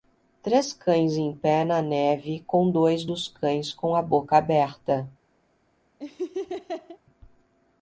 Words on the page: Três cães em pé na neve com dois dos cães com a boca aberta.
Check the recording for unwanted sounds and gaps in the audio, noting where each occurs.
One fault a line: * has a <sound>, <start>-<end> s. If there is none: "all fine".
* has a laugh, 6.0-7.0 s